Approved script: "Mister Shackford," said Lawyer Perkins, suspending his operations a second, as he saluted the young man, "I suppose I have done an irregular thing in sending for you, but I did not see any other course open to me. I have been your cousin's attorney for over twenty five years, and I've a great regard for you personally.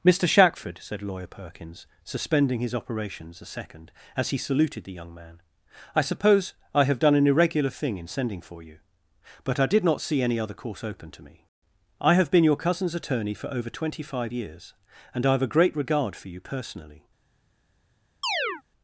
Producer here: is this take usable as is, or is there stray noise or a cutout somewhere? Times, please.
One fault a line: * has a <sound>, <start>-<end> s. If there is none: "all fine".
* has a chirp, 18.2-18.6 s